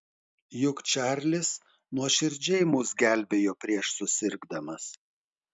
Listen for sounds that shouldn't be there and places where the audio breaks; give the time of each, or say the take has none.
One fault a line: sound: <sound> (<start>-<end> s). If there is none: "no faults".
no faults